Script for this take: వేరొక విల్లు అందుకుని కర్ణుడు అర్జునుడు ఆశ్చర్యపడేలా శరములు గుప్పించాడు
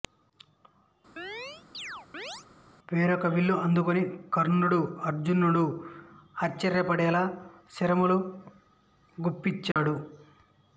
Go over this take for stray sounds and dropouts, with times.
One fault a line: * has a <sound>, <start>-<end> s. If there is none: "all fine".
* has a chirp, 1.2-2.5 s
* has a dropout, 9.7-9.8 s